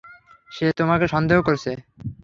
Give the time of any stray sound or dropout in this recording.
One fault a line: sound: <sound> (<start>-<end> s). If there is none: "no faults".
no faults